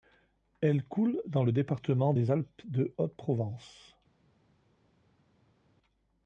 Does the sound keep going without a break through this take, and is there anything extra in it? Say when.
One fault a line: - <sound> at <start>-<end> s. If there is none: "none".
none